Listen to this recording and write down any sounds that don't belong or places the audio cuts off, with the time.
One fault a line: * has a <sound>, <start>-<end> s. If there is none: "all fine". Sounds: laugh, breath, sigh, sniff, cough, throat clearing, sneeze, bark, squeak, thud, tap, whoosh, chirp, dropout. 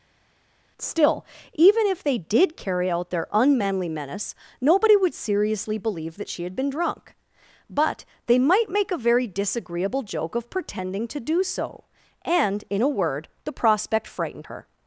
all fine